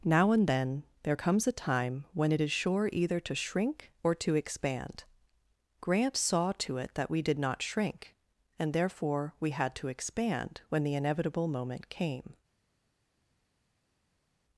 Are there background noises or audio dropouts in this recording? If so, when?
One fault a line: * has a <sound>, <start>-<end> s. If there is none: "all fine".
all fine